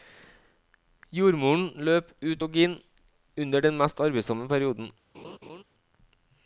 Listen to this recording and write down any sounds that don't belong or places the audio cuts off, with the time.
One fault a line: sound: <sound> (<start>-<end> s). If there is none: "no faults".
sound: laugh (5.1-5.6 s)